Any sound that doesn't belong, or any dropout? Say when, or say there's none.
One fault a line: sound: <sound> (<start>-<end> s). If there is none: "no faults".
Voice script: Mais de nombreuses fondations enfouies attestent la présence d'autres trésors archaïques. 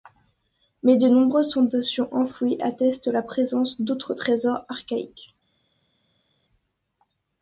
no faults